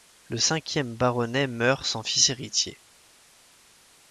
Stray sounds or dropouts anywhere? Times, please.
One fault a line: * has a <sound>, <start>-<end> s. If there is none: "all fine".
all fine